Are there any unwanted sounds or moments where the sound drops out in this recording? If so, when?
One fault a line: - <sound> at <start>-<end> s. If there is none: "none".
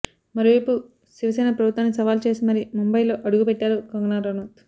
none